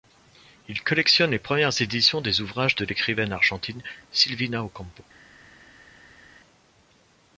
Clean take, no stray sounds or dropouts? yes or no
yes